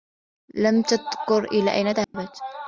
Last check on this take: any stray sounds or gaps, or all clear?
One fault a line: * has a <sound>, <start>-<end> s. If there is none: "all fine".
* has a dropout, 2.0-2.1 s